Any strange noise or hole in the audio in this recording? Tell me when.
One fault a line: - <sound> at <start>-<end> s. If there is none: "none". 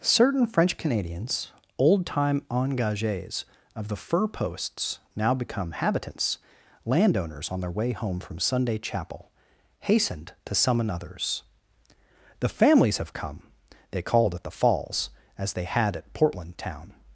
none